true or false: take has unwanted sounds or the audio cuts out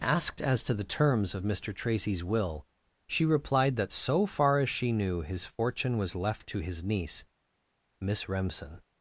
false